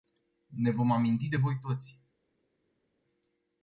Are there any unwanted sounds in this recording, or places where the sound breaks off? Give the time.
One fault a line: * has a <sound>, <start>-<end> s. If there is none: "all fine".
all fine